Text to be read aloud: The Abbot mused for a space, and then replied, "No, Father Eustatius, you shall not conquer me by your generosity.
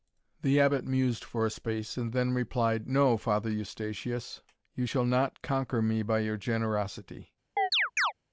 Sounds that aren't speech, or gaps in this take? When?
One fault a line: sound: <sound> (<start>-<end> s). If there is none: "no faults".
sound: chirp (7.6-8.1 s)